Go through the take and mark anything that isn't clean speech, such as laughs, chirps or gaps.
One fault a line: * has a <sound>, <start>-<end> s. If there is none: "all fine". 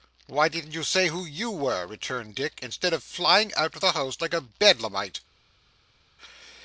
all fine